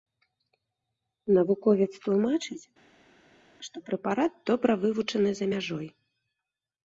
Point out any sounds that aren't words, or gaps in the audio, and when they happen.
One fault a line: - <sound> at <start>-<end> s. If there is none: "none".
none